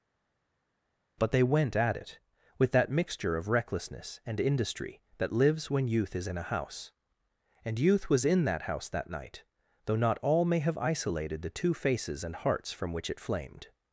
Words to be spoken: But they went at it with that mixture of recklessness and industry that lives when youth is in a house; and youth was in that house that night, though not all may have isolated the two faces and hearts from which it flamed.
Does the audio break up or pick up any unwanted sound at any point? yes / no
no